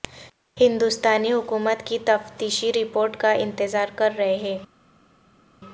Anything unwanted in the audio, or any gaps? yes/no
no